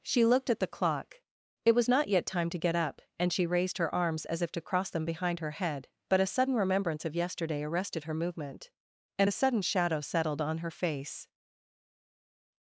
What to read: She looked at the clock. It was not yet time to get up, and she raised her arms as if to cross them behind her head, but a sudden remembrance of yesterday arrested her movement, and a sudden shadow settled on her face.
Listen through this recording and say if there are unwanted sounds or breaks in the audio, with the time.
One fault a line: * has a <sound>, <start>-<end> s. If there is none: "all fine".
all fine